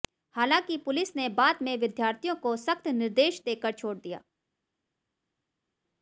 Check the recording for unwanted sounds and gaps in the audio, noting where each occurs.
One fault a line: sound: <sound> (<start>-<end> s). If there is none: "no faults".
no faults